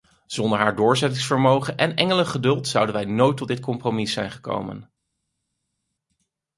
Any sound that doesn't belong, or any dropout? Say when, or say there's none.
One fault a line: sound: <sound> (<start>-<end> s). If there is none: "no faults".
no faults